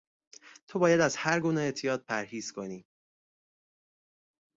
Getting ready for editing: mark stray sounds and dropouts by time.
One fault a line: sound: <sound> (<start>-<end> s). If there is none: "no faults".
no faults